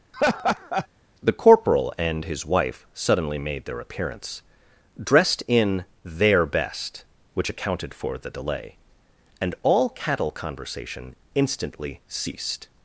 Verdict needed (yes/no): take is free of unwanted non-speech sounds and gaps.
no